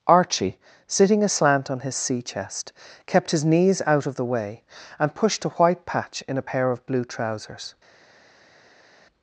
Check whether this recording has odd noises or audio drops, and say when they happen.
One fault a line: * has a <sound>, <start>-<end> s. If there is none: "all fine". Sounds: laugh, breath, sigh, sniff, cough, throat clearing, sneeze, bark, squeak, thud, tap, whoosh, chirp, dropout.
all fine